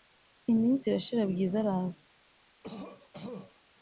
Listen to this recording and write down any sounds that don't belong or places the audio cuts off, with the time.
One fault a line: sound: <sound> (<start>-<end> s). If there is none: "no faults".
sound: cough (2.6-3.6 s)